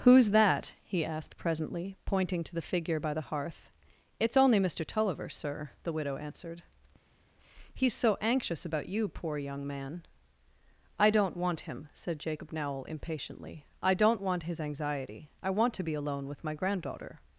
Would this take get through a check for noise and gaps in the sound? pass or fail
pass